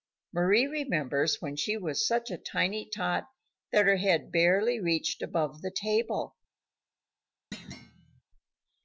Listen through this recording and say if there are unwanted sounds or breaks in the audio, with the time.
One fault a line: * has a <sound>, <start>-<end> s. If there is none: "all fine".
* has a thud, 7.5-8.2 s